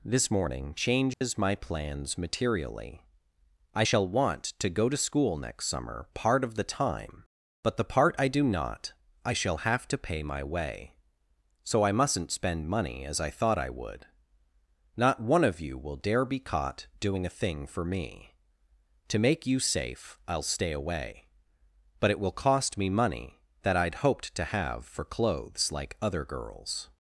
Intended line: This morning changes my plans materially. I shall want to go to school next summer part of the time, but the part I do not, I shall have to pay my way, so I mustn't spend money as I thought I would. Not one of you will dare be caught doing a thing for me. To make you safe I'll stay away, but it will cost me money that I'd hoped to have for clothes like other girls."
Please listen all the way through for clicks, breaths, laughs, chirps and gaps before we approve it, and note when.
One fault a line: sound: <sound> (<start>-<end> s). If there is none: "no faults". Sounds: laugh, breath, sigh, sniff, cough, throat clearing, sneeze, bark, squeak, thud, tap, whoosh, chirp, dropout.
sound: dropout (1.1-1.2 s)